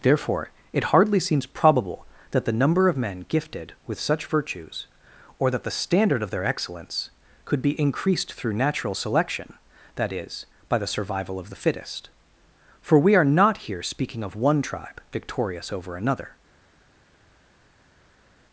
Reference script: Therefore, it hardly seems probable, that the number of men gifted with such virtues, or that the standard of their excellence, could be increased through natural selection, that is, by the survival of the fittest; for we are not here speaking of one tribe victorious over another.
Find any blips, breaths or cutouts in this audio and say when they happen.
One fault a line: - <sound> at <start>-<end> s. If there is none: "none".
none